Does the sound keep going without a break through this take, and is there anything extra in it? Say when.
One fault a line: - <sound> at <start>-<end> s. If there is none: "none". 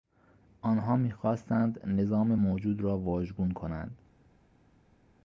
none